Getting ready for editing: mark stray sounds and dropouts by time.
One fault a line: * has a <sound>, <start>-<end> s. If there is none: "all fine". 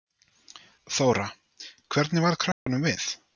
* has a dropout, 2.5-2.7 s